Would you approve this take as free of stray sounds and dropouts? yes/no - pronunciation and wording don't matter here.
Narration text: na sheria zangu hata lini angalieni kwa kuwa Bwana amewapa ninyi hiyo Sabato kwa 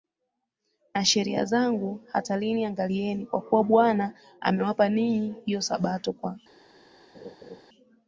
no